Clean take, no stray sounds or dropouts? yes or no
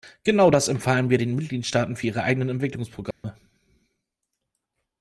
no